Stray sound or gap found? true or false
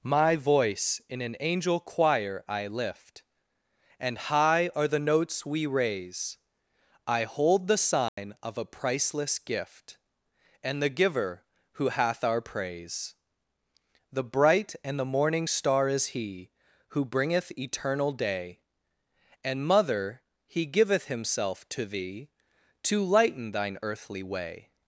true